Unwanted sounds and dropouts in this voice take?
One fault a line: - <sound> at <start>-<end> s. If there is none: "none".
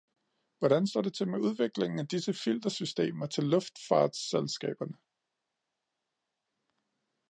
none